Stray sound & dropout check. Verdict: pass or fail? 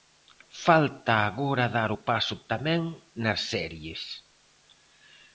pass